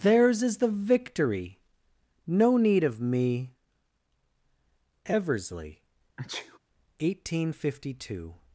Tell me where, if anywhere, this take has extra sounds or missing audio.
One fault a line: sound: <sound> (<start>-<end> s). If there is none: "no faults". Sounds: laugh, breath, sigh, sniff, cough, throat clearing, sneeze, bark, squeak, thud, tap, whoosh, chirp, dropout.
sound: sneeze (6.2-6.6 s)